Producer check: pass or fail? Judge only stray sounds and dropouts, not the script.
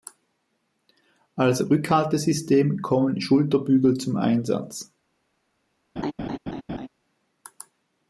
fail